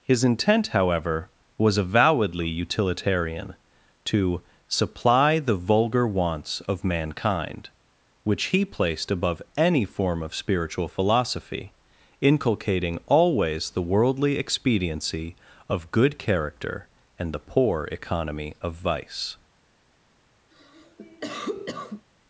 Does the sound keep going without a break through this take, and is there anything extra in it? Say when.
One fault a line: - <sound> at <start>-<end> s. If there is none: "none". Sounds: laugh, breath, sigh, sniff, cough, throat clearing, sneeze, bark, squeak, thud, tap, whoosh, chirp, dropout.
- cough at 20.5-22.1 s